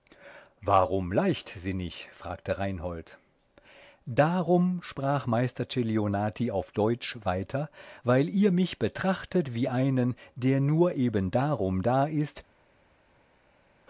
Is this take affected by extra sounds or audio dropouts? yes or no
no